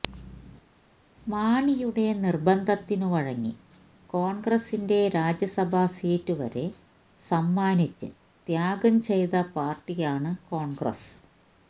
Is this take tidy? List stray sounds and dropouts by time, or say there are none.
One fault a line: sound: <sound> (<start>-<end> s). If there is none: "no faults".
no faults